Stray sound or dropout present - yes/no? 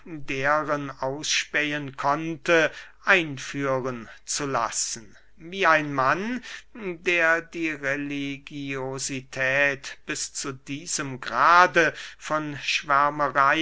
no